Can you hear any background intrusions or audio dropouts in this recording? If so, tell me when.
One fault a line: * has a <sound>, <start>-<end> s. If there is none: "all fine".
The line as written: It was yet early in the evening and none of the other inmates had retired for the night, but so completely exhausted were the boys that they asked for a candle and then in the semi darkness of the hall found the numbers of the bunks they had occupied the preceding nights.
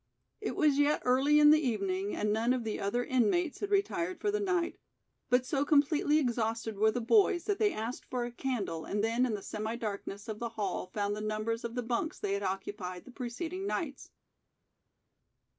all fine